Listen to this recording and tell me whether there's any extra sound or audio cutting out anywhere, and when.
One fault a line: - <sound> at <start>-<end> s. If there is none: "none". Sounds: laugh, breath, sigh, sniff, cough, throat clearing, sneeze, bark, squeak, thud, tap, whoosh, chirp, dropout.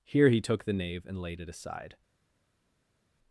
none